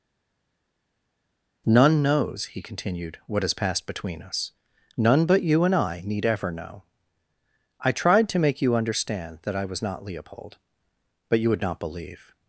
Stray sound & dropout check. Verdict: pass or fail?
pass